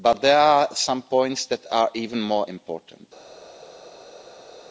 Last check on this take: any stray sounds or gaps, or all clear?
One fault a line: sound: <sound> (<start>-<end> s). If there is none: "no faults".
no faults